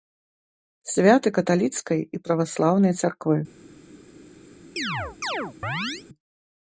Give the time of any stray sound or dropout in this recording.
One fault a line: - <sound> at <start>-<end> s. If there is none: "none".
- chirp at 4.8-6.0 s